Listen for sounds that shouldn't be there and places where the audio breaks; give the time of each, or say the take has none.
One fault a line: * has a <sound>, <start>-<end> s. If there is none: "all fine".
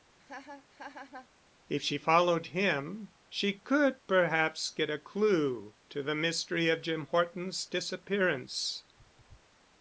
* has a laugh, 0.2-1.3 s